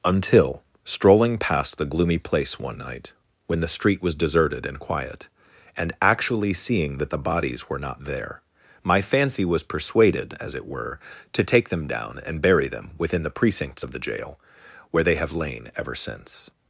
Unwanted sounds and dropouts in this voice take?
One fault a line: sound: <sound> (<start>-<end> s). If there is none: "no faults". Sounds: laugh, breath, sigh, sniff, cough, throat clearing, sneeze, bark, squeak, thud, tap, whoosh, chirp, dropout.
no faults